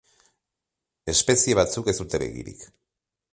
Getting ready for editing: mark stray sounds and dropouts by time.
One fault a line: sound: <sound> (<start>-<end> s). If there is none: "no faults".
no faults